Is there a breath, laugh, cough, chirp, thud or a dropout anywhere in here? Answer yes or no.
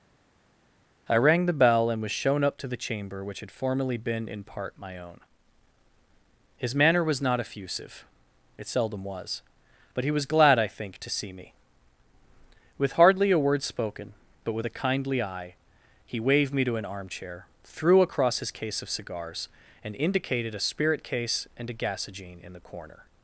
no